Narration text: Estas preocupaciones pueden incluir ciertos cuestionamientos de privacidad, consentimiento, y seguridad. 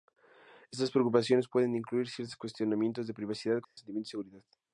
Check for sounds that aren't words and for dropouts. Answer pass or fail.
fail